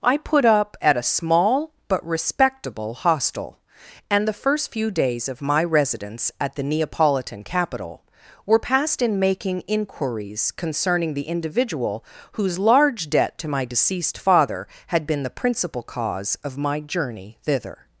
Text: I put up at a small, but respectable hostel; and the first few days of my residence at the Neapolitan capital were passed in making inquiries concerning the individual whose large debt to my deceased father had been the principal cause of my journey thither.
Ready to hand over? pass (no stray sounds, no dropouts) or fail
pass